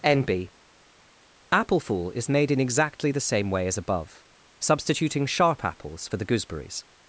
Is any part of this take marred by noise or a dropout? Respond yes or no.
no